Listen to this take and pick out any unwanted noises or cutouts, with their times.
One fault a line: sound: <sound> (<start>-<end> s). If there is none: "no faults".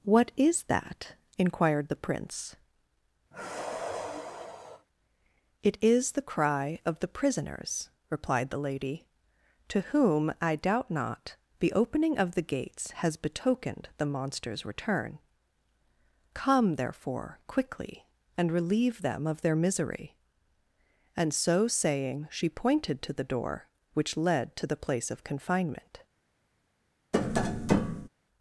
sound: sigh (3.3-4.9 s)
sound: tap (27.1-28.1 s)